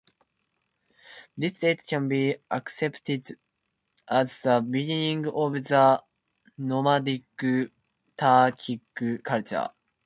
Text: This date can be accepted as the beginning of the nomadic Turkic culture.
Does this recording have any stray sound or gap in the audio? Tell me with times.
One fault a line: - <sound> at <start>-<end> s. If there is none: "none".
none